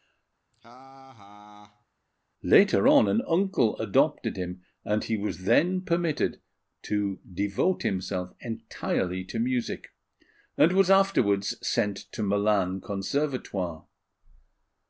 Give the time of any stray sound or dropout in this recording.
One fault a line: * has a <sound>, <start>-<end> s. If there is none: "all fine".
* has a laugh, 0.5-1.9 s